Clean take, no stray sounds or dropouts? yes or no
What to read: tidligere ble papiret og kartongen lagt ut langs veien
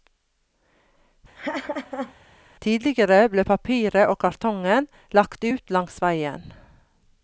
no